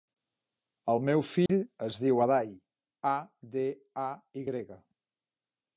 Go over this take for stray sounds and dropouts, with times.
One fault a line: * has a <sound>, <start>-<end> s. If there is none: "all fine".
* has a dropout, 1.5-1.5 s